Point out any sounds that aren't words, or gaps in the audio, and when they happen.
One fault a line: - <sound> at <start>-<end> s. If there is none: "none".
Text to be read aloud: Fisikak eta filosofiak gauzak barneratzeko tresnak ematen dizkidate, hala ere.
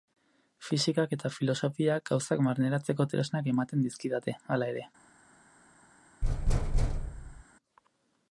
- thud at 6.2-7.4 s